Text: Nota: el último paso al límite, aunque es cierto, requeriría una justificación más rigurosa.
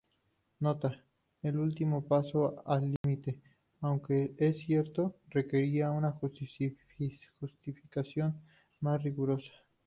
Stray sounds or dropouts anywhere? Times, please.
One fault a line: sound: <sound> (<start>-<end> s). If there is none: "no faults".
sound: dropout (3.0-3.0 s)